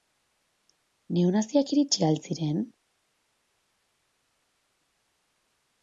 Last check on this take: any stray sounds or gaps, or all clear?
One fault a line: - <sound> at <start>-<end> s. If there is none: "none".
none